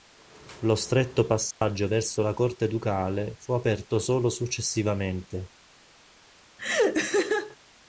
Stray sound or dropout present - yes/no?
yes